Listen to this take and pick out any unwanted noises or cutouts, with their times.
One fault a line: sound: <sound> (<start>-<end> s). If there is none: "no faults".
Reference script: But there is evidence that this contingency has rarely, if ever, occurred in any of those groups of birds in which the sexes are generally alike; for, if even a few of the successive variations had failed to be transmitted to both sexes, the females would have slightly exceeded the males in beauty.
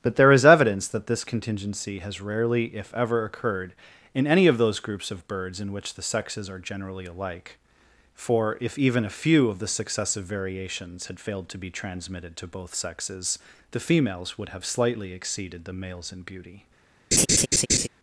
sound: laugh (17.1-17.9 s)